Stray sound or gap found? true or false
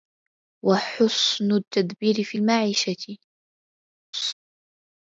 true